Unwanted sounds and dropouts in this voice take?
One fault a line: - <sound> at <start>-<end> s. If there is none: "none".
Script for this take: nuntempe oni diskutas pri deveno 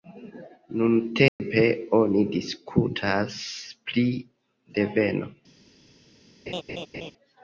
- dropout at 1.3-1.4 s
- laugh at 6.5-7.1 s